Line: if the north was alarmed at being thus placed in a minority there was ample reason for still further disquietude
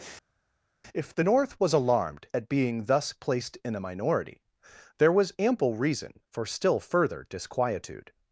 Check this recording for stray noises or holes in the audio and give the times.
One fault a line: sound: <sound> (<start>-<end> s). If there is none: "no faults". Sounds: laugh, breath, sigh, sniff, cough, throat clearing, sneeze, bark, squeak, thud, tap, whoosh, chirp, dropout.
no faults